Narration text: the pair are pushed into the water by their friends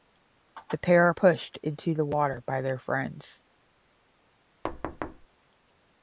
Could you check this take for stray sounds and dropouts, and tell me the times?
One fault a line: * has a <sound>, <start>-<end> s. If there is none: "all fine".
* has a thud, 4.6-5.3 s